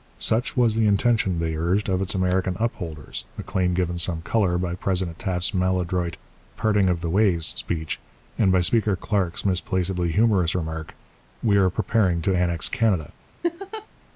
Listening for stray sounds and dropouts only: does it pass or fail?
fail